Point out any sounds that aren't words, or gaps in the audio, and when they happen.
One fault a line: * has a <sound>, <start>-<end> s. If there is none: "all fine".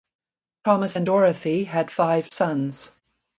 all fine